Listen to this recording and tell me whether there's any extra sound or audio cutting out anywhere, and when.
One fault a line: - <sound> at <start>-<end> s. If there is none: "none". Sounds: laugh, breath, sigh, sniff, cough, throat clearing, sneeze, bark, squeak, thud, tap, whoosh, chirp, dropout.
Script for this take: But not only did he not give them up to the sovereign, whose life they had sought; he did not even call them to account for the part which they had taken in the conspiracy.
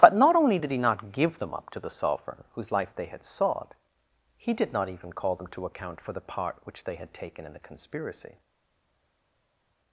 none